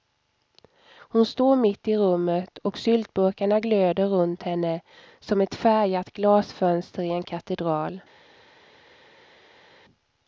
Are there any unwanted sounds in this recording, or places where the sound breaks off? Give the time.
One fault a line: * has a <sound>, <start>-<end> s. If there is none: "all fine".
all fine